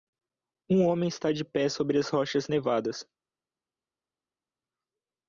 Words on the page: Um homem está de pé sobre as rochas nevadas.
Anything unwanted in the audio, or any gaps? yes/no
no